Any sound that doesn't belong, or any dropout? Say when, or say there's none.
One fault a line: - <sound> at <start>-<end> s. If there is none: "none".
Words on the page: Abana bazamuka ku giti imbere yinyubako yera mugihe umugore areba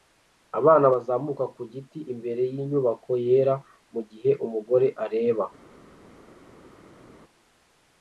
none